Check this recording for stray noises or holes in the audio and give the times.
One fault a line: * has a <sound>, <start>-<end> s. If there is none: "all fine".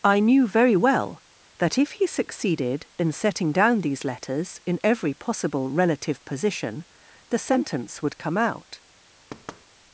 * has a thud, 9.3-9.7 s